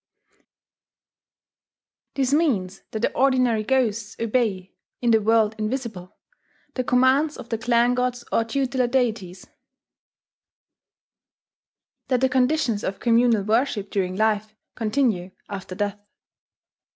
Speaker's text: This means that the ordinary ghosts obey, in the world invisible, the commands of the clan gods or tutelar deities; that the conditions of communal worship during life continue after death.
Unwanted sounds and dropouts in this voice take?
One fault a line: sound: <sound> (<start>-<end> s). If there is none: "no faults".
no faults